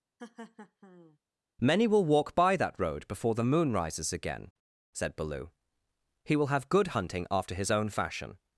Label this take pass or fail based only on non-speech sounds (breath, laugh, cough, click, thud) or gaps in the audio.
fail